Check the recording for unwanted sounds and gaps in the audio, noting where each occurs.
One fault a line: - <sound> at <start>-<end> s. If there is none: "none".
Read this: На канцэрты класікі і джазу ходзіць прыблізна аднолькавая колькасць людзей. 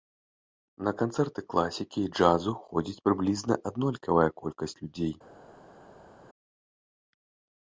none